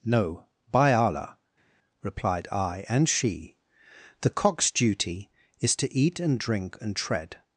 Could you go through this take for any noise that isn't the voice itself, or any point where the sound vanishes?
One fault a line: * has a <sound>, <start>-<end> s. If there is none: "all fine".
all fine